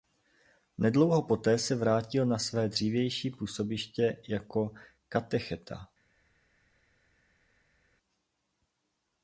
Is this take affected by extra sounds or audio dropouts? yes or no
no